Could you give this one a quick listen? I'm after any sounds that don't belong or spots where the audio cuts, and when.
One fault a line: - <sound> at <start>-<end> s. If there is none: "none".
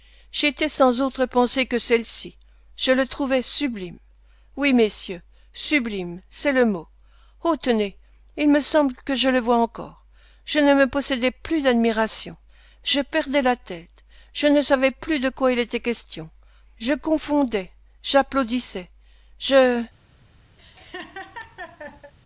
- laugh at 20.6-22.1 s